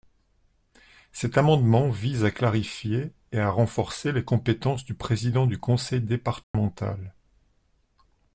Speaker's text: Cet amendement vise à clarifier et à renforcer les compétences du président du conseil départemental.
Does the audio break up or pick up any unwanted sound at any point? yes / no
yes